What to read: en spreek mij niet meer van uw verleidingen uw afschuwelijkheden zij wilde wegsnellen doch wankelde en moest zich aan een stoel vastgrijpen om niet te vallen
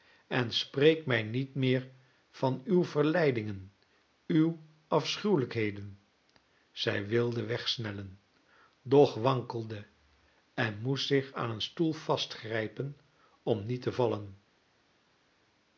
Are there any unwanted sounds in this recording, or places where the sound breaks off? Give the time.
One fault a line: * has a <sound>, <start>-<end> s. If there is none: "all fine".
all fine